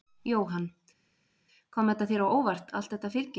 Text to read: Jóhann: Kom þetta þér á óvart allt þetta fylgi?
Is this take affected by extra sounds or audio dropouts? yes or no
no